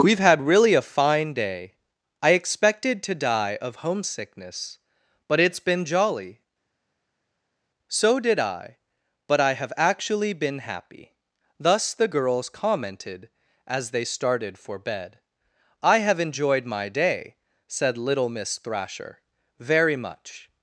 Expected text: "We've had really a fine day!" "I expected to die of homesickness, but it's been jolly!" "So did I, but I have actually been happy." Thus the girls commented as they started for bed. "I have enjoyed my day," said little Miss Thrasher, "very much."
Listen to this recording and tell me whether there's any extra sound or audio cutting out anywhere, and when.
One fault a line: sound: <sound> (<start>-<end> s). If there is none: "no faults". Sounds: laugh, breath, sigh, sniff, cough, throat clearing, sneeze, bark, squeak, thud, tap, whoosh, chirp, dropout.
no faults